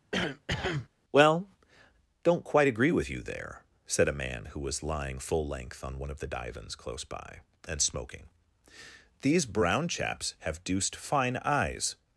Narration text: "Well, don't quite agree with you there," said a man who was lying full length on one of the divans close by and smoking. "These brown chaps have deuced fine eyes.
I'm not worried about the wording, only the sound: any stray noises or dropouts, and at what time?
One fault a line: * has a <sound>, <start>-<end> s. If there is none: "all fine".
* has a cough, 0.1-0.9 s